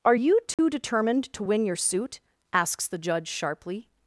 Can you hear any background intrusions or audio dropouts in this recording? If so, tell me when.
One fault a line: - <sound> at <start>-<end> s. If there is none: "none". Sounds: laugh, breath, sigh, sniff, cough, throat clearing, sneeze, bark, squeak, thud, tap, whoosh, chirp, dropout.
- dropout at 0.5-0.6 s